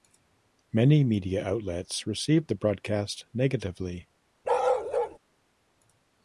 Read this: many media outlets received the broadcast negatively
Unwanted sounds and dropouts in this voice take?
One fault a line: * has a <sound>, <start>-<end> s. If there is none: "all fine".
* has a bark, 4.4-5.2 s